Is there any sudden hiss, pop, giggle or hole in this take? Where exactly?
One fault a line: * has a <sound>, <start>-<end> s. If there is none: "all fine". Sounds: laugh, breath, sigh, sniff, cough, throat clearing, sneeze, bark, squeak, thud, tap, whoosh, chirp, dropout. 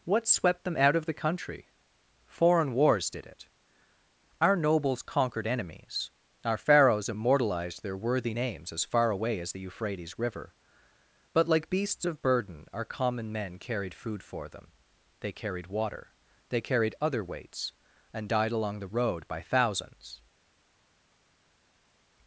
all fine